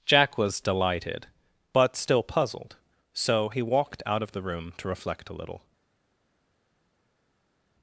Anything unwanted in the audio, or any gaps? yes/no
no